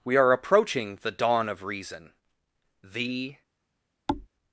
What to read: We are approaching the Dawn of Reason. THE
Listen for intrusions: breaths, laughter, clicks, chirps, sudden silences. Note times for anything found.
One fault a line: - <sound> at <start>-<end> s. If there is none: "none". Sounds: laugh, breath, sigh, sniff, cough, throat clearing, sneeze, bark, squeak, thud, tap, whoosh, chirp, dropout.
- thud at 4.1-4.3 s